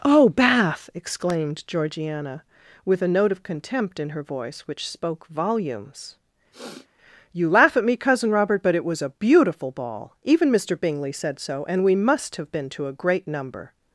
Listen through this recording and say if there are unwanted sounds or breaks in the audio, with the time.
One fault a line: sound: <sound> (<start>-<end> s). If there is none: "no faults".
sound: sniff (6.5-6.9 s)